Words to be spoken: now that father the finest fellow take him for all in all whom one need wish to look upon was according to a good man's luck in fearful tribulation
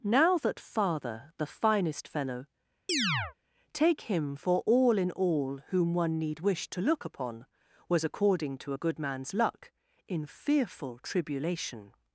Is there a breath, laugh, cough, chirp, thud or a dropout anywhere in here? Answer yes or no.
yes